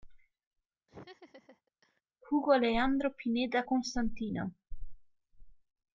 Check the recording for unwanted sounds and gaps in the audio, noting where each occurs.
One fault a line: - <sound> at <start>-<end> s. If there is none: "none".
- laugh at 0.9-2.0 s